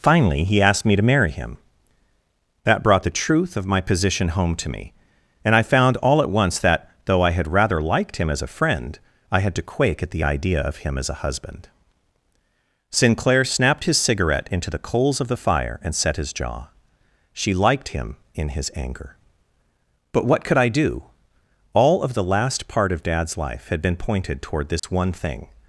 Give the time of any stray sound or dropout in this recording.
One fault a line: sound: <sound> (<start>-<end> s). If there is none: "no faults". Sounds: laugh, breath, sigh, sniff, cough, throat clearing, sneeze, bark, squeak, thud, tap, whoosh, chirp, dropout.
sound: dropout (24.8-24.8 s)